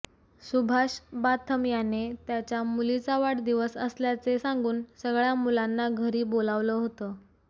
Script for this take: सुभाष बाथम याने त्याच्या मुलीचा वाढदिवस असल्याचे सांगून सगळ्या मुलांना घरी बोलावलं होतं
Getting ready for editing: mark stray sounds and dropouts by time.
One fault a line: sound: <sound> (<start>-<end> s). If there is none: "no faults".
no faults